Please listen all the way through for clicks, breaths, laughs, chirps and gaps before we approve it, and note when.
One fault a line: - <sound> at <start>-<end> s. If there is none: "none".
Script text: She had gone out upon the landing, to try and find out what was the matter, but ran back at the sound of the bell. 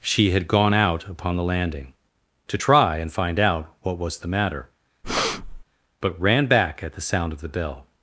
- breath at 5.0-5.6 s